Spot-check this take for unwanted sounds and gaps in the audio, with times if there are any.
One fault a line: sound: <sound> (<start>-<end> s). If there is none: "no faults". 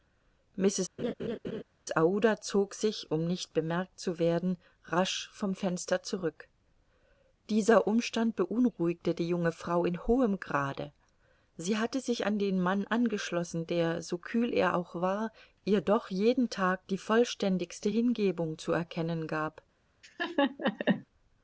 sound: laugh (1.0-1.6 s)
sound: laugh (20.0-21.1 s)